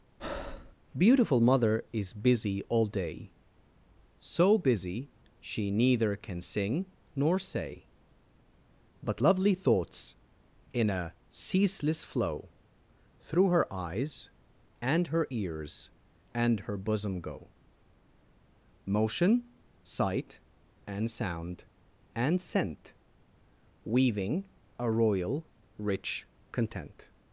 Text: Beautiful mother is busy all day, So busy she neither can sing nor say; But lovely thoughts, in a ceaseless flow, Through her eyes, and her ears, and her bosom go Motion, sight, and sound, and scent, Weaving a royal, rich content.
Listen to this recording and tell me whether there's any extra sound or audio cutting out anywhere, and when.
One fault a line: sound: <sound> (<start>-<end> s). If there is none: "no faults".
sound: breath (0.2-0.7 s)